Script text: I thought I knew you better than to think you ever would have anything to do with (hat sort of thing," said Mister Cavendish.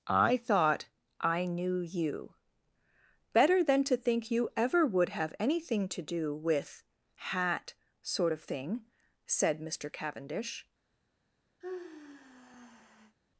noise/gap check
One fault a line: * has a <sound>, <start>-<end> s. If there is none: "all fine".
* has a sigh, 11.6-13.2 s